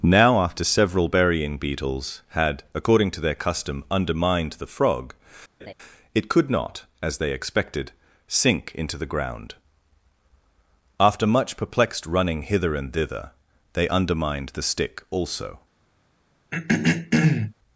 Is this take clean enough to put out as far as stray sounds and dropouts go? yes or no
no